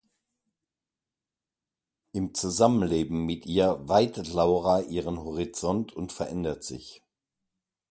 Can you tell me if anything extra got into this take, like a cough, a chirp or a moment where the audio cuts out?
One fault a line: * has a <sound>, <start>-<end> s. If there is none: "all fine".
all fine